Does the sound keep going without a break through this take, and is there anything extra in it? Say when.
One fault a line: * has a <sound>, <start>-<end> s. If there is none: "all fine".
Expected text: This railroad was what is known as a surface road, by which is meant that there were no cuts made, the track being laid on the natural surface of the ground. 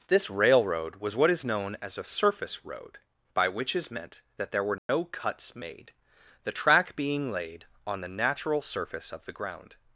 * has a dropout, 4.8-4.9 s